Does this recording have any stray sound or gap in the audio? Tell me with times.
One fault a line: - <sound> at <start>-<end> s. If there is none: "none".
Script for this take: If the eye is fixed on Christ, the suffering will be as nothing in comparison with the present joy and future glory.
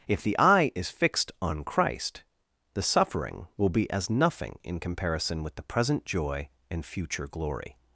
none